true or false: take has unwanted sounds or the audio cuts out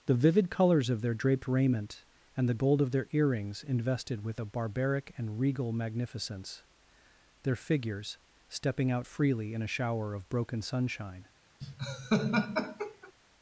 true